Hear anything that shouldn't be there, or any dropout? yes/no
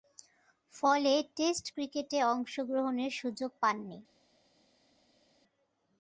no